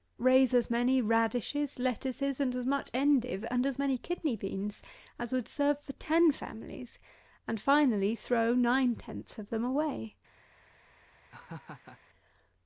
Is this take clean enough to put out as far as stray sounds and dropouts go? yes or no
no